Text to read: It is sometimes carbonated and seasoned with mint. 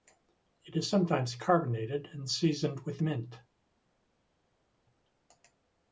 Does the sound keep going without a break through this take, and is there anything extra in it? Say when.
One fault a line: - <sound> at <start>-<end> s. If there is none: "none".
none